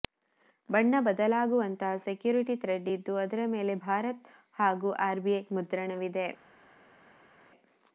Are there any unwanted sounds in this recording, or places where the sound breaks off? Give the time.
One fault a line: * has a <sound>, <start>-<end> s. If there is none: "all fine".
all fine